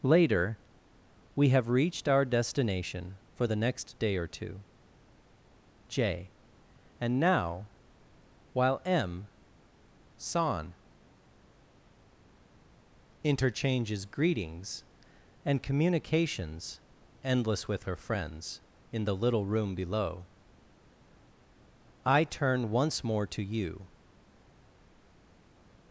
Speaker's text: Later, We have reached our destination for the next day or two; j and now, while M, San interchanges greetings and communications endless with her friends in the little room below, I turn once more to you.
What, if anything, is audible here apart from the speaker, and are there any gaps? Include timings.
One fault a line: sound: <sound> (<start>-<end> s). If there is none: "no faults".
no faults